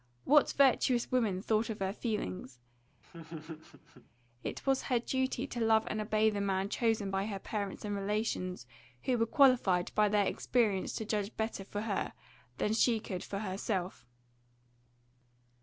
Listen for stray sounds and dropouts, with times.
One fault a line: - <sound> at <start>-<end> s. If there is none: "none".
- laugh at 3.0-4.1 s